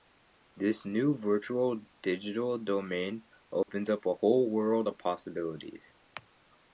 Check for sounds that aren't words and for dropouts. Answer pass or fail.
fail